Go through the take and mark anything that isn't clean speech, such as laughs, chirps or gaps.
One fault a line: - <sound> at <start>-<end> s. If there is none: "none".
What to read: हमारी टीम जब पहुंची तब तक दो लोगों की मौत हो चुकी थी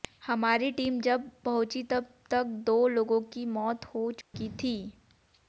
- dropout at 4.2-4.3 s